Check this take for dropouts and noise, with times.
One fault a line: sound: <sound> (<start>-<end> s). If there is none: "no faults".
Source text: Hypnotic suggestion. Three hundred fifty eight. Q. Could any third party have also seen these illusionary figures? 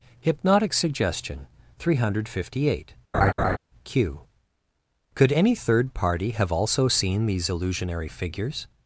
sound: laugh (3.1-3.6 s)